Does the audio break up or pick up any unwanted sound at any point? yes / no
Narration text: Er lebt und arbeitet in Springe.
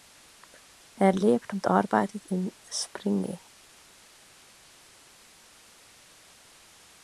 no